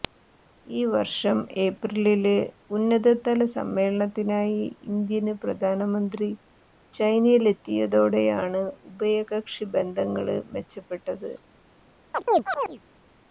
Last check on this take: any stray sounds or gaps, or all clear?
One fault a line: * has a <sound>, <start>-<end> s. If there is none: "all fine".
* has a chirp, 12.1-12.8 s